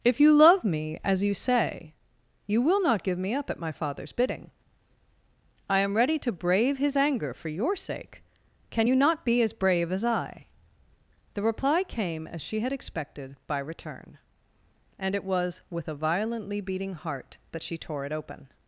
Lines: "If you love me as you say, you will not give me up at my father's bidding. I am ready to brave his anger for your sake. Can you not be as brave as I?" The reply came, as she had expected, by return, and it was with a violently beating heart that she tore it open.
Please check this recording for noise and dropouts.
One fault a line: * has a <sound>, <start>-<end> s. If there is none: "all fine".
all fine